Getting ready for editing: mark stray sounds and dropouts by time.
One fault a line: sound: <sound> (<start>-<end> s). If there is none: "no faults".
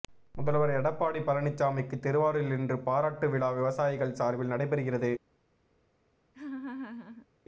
sound: laugh (6.3-7.3 s)